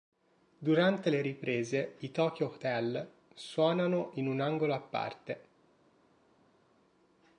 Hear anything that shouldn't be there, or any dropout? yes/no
no